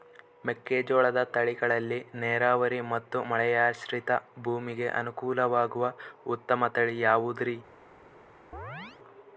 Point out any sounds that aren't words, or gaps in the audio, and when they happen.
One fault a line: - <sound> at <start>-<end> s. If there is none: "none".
- chirp at 8.5-9.0 s